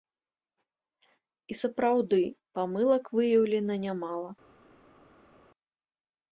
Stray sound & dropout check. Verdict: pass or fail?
pass